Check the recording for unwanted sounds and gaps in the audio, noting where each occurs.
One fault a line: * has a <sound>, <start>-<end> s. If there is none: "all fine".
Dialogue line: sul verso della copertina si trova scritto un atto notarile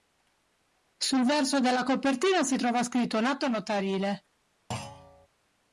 * has a thud, 4.7-5.3 s